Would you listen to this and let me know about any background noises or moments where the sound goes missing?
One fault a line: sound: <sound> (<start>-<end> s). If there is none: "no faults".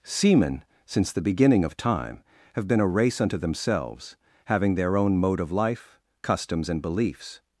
no faults